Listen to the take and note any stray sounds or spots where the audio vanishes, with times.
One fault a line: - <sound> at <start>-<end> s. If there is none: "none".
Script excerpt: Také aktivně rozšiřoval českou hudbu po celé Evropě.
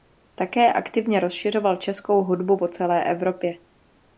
none